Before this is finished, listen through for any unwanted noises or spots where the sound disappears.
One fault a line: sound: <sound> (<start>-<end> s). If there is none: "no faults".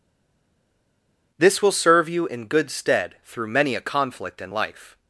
no faults